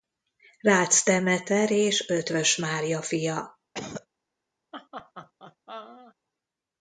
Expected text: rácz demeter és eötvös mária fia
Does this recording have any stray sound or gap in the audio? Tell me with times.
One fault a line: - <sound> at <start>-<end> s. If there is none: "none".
- cough at 3.7-4.1 s
- laugh at 4.7-6.2 s